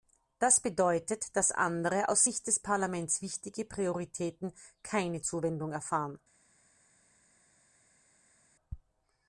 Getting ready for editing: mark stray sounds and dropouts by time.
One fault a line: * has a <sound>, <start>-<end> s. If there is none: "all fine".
all fine